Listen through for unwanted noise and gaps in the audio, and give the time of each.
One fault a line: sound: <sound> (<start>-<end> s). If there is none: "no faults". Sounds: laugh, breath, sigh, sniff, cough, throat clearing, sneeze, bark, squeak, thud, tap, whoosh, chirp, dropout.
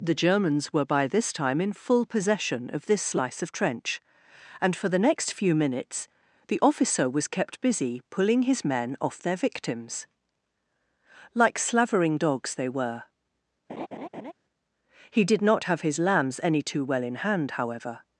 sound: laugh (13.7-14.3 s)